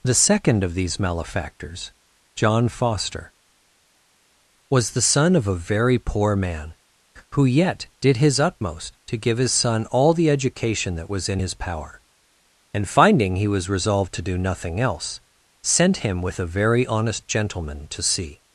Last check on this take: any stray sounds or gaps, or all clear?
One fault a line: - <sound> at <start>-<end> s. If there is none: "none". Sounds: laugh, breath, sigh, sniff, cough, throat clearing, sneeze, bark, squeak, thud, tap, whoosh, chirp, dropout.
none